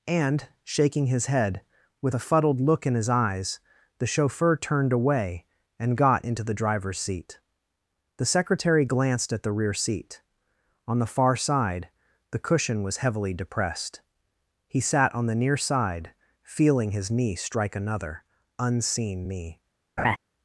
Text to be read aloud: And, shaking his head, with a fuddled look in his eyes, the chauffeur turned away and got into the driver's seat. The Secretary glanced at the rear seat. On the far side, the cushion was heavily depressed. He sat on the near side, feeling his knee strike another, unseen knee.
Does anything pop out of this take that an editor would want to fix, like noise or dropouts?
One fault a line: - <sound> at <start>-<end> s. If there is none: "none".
- laugh at 20.0-20.2 s